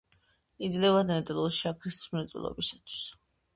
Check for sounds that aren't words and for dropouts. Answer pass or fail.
pass